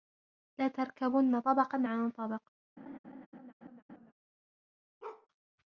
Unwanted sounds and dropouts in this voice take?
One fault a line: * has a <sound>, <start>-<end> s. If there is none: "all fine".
* has a laugh, 2.8-4.1 s
* has a bark, 5.0-5.3 s